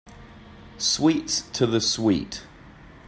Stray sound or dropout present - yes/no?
no